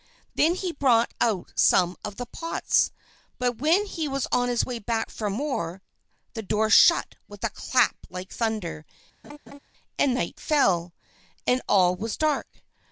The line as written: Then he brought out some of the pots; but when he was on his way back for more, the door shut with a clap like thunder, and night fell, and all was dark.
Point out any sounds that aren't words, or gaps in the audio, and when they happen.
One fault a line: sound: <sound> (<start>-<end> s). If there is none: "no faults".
sound: laugh (9.2-9.6 s)